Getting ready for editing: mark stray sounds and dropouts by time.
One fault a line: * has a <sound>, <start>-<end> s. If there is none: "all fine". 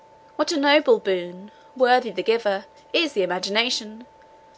all fine